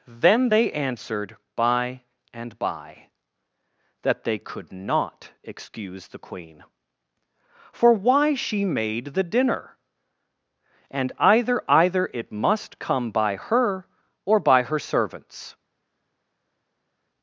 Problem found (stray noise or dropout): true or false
false